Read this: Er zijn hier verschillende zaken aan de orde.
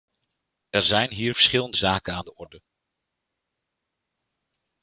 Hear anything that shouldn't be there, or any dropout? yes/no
no